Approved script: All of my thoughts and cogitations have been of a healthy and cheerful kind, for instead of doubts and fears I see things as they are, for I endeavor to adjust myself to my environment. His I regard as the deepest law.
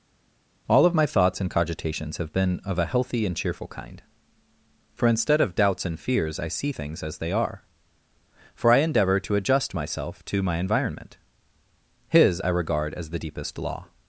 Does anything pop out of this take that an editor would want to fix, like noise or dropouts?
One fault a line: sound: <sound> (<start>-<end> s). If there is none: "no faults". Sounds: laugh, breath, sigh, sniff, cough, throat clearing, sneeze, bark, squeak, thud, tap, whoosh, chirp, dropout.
no faults